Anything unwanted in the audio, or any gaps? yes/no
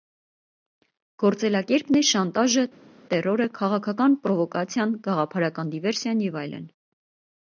no